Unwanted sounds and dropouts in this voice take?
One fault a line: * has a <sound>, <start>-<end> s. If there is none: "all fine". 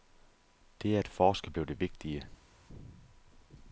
all fine